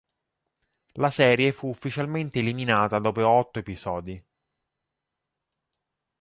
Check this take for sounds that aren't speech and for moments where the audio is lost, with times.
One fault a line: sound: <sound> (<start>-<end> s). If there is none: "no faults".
no faults